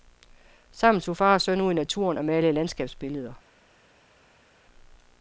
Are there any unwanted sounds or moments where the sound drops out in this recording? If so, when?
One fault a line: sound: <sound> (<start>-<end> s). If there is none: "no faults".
no faults